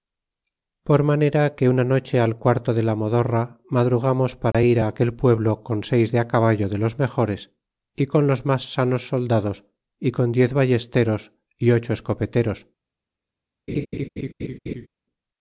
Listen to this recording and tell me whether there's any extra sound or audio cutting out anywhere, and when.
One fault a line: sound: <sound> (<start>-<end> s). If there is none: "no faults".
sound: dropout (4.5-4.5 s)
sound: laugh (13.7-14.9 s)